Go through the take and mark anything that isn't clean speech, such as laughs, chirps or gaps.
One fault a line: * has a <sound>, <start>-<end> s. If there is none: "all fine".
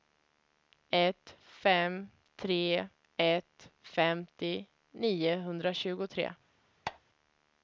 * has a squeak, 6.8-7.0 s